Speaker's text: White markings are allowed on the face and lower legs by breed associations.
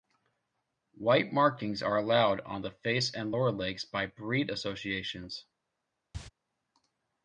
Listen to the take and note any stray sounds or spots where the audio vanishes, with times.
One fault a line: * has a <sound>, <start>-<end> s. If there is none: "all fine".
* has a cough, 6.1-6.3 s